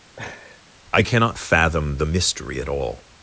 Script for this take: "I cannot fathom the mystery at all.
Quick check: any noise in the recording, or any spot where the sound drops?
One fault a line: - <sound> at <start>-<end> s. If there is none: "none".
- laugh at 0.2-0.6 s